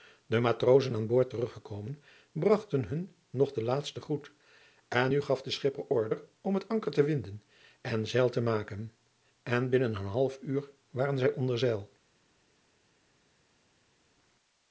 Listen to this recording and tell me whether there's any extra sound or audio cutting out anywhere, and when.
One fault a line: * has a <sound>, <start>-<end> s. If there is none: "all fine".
all fine